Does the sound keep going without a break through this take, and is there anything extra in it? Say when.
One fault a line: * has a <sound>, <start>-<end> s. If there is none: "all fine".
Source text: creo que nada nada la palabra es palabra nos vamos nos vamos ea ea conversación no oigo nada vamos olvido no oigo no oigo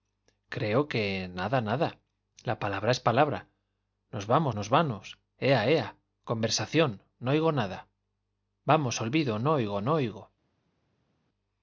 all fine